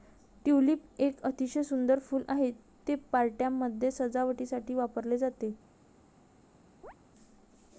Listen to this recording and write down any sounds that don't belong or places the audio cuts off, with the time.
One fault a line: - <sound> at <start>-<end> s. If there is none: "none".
- chirp at 6.8-6.9 s